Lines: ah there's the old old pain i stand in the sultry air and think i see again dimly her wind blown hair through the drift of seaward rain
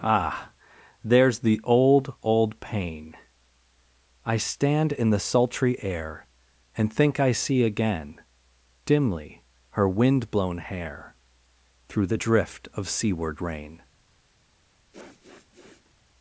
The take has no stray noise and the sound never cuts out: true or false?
false